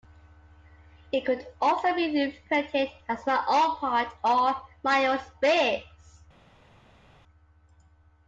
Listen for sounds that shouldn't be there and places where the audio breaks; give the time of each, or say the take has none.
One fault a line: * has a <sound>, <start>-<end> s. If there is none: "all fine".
all fine